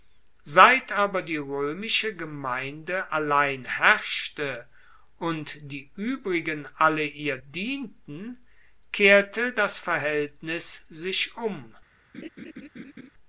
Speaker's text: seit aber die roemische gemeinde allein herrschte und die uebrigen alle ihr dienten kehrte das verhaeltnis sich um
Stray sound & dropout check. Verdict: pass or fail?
fail